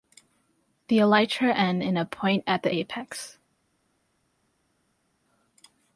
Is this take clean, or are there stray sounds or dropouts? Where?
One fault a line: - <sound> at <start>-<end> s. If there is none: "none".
none